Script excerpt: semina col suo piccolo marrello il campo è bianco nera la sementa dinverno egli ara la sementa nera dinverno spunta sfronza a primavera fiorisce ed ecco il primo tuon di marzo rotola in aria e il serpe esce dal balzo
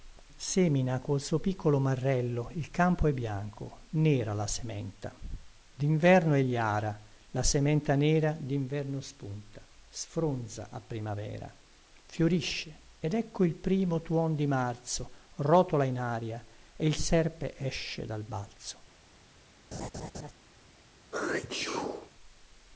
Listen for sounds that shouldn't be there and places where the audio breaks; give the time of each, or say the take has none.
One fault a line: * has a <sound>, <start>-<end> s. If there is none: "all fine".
* has a laugh, 19.7-20.3 s
* has a sneeze, 21.1-22.1 s